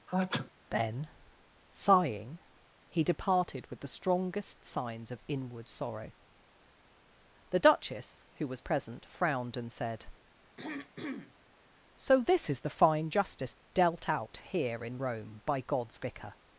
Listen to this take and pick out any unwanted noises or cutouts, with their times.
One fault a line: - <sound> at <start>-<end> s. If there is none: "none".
- sneeze at 0.1-0.5 s
- throat clearing at 10.6-11.3 s